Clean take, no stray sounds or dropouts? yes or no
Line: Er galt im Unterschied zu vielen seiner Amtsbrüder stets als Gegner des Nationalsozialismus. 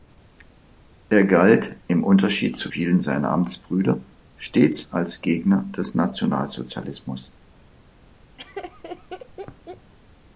no